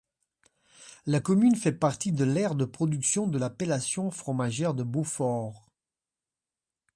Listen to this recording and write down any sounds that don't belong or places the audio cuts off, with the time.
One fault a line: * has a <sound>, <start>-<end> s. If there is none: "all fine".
all fine